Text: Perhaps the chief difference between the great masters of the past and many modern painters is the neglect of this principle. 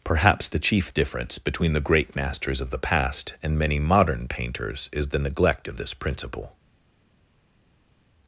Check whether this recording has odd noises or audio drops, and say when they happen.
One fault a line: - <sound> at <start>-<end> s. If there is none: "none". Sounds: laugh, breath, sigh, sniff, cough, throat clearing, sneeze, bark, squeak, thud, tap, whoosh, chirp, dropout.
none